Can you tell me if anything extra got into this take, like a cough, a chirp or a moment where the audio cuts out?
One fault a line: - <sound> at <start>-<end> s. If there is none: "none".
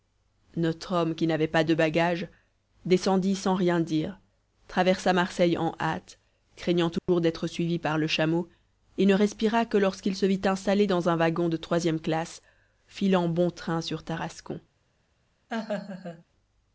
- dropout at 7.0-7.1 s
- laugh at 15.5-16.2 s